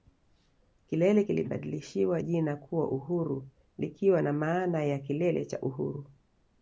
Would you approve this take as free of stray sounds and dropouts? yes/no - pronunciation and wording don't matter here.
yes